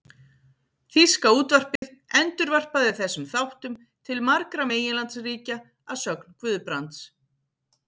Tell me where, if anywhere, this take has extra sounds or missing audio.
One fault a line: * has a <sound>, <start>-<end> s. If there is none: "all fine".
* has a dropout, 1.8-1.8 s